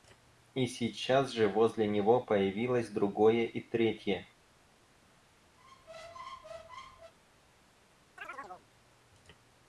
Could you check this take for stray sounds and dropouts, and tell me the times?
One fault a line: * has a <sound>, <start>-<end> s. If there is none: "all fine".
* has a squeak, 5.6-7.1 s
* has a chirp, 8.2-8.7 s